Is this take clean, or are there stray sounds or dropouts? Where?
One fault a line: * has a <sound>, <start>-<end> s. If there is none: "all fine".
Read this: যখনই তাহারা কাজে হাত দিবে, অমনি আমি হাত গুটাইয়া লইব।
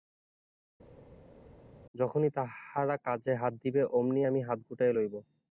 all fine